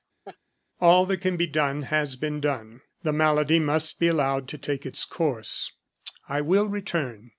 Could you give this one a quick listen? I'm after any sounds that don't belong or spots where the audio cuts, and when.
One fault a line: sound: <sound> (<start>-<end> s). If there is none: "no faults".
sound: laugh (0.2-0.4 s)